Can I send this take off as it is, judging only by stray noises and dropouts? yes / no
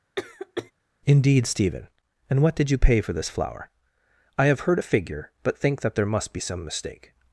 no